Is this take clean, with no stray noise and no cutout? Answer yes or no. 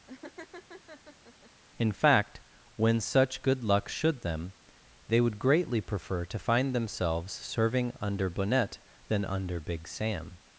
no